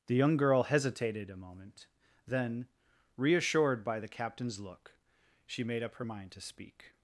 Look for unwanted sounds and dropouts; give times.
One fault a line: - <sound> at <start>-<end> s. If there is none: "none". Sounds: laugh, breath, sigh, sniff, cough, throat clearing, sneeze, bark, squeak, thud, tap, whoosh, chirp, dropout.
none